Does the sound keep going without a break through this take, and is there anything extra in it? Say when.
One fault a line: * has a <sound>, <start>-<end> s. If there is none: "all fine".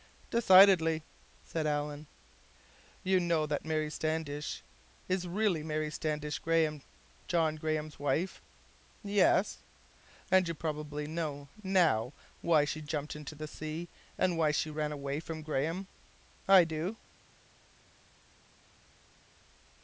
all fine